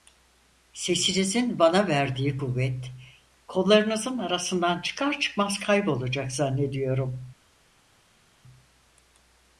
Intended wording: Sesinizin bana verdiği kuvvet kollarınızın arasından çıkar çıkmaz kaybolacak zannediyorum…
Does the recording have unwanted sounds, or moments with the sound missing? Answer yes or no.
no